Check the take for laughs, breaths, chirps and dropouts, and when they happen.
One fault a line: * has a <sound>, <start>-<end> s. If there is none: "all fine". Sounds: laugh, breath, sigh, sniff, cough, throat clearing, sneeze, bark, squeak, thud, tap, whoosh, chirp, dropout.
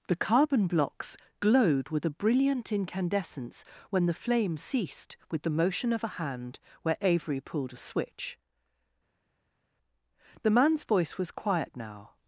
all fine